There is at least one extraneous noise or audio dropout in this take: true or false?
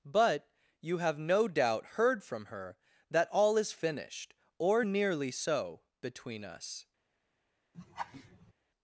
true